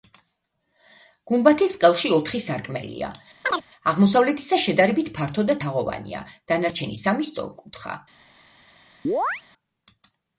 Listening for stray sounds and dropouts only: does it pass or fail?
fail